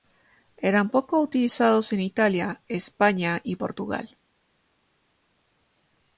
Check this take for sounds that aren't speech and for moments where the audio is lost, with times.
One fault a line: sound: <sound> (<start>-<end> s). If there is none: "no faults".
no faults